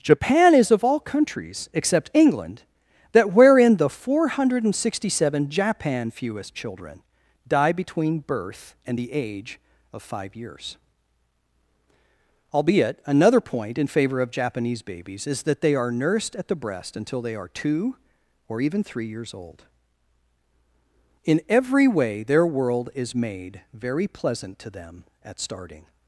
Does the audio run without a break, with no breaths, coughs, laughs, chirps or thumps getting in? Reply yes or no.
yes